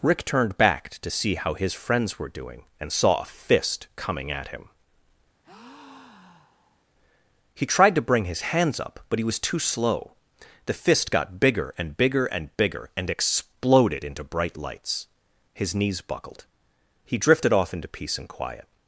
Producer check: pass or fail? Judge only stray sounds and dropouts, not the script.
fail